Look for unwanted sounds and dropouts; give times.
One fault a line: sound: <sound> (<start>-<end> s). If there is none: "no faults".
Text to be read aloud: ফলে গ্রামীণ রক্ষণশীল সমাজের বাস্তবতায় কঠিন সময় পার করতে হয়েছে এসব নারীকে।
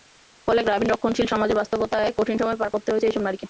no faults